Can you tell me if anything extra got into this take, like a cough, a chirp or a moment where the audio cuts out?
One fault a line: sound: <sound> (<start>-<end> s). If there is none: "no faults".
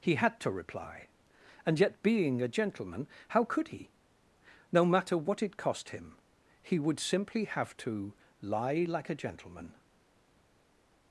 no faults